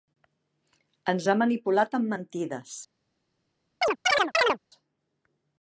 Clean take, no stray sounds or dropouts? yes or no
no